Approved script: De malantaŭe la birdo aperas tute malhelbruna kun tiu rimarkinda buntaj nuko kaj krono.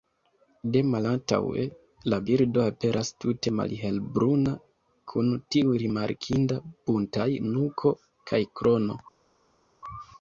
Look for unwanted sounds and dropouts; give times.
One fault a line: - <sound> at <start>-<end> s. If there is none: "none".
none